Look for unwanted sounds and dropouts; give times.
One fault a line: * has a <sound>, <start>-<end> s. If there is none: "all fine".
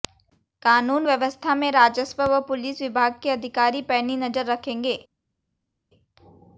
all fine